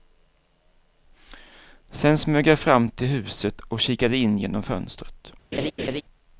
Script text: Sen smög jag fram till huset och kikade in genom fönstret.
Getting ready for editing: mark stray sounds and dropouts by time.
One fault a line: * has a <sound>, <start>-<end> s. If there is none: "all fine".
* has a laugh, 5.5-6.0 s